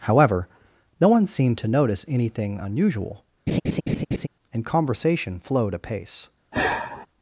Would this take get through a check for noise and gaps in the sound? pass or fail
fail